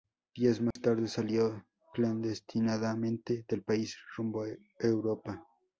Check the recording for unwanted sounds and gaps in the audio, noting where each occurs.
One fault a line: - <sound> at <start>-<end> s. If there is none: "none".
- dropout at 0.7-0.8 s